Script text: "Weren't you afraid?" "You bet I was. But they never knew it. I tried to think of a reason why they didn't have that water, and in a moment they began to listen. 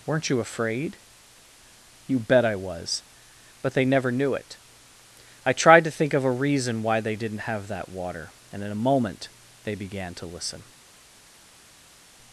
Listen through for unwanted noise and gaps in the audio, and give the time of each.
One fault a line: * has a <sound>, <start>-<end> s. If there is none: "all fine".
all fine